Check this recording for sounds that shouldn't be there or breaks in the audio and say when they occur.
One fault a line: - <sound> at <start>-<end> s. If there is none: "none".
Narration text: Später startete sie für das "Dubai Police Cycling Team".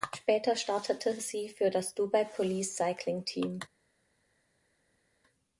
none